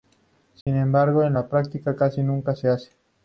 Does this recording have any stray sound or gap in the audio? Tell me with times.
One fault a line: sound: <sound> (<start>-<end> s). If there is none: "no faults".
sound: dropout (0.6-0.7 s)